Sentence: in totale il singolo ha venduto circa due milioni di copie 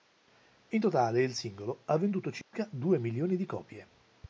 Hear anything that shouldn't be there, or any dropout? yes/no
yes